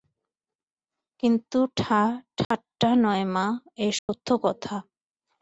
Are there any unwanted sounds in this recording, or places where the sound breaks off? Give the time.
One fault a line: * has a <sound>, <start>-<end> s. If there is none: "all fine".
* has a dropout, 2.4-2.5 s
* has a dropout, 4.0-4.1 s